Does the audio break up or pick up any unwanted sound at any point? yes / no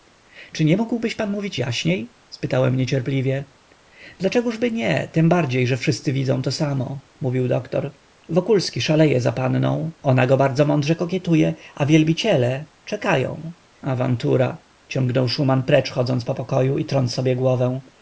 no